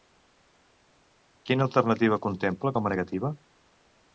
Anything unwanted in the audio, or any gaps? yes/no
no